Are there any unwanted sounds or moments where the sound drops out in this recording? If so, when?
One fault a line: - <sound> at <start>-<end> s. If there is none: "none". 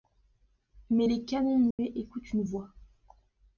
- dropout at 1.7-1.8 s